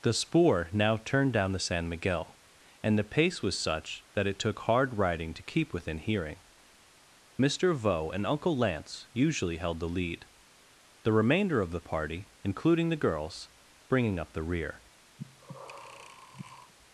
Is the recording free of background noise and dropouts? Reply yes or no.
no